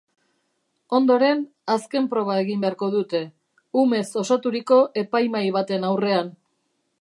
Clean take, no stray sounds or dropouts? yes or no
yes